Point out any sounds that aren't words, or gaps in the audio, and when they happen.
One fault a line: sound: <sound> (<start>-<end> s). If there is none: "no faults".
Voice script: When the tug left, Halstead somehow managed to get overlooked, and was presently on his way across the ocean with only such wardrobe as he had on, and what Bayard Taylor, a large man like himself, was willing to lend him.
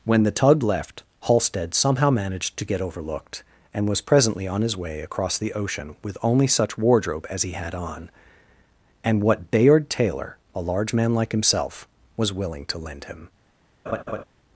sound: laugh (13.9-14.2 s)